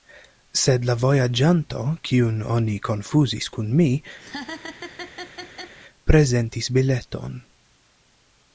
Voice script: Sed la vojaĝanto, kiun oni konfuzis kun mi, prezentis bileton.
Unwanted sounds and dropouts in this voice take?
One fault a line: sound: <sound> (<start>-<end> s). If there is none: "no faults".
sound: laugh (4.2-5.7 s)